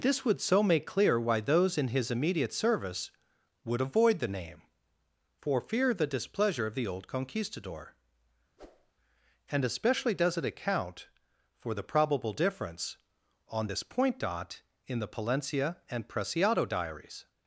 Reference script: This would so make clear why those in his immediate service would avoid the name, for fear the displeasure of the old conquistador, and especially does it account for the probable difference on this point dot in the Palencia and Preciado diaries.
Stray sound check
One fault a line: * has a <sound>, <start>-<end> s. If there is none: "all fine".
* has a whoosh, 8.6-8.9 s